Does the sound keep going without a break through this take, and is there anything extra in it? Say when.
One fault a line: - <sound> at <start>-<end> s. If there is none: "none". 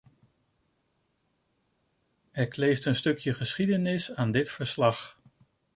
none